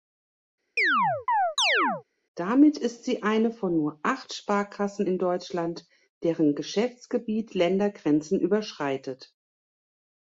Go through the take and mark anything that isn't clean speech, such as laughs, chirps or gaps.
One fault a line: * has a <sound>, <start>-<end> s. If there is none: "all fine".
* has a chirp, 0.8-2.0 s